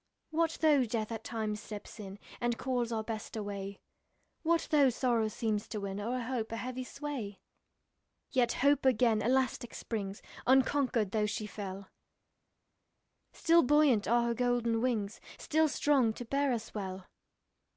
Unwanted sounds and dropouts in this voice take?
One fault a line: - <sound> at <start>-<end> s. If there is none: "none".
none